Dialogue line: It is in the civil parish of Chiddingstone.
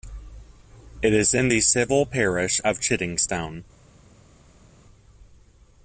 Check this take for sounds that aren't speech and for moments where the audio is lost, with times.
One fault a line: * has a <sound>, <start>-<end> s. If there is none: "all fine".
all fine